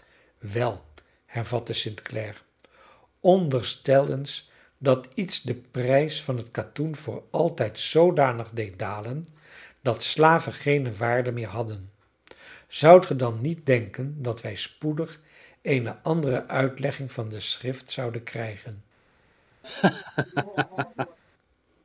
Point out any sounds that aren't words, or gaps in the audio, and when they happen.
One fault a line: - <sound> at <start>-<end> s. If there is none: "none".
- laugh at 19.6-21.2 s